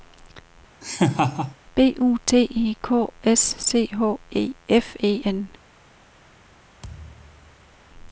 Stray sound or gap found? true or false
true